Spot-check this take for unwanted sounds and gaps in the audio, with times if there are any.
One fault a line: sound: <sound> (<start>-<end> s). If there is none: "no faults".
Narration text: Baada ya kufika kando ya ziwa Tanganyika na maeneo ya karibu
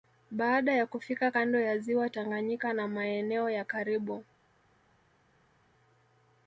no faults